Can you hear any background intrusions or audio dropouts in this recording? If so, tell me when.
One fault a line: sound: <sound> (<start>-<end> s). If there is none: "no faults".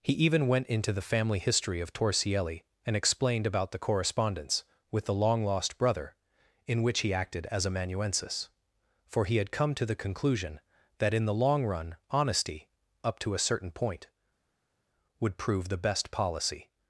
no faults